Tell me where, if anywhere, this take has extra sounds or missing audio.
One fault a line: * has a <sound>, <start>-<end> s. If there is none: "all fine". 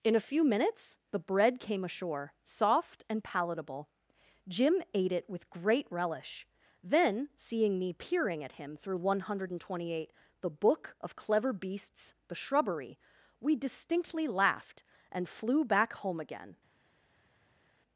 all fine